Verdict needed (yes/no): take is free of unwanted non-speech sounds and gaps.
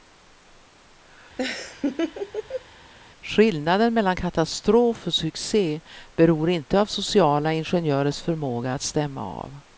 no